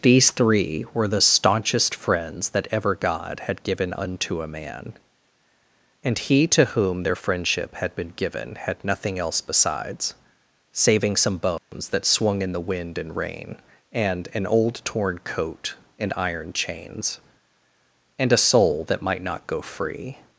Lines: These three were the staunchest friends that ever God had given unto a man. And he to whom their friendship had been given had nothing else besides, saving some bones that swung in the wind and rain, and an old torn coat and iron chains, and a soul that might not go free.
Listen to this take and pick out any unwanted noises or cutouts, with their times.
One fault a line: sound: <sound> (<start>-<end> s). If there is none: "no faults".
sound: dropout (11.6-11.7 s)